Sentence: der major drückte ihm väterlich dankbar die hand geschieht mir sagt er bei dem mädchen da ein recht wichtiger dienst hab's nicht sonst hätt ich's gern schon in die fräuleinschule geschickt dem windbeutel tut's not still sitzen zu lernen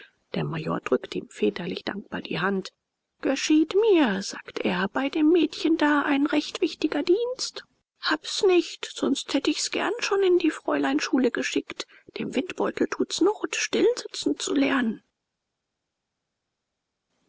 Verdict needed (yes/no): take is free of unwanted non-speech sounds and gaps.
yes